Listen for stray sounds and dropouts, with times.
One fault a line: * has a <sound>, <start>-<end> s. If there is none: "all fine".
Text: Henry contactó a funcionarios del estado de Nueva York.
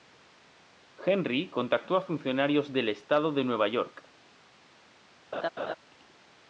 * has a laugh, 5.3-5.7 s